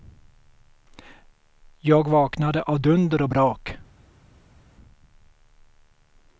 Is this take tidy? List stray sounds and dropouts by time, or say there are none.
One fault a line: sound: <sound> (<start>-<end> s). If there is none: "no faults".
no faults